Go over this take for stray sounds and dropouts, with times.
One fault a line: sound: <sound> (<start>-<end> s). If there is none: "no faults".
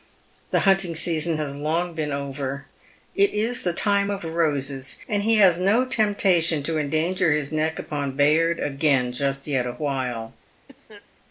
sound: cough (10.7-11.1 s)